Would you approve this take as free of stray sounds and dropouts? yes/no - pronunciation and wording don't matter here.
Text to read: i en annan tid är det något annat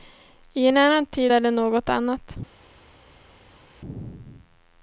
yes